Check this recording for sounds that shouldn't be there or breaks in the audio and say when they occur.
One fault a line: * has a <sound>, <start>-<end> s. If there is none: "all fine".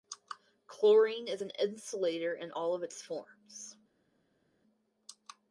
all fine